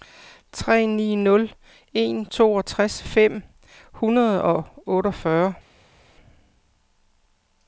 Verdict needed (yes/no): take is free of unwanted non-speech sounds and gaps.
yes